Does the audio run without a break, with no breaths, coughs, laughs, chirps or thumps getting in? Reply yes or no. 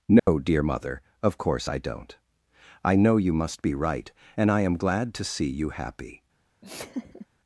no